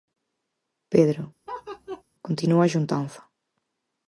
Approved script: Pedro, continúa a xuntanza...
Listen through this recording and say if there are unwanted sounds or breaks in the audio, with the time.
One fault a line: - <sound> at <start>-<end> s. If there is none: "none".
- laugh at 1.5-2.0 s